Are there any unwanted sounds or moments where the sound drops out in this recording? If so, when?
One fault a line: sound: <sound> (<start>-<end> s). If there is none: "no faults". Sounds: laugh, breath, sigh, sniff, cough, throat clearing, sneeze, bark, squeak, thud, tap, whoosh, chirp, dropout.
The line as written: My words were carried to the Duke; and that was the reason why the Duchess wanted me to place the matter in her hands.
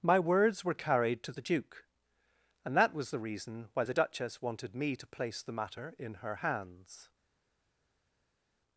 no faults